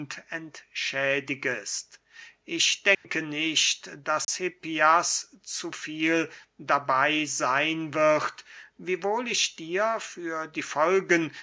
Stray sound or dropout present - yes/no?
yes